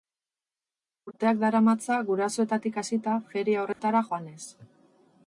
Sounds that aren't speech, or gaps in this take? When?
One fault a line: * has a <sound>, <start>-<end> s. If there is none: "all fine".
* has a dropout, 3.7-3.8 s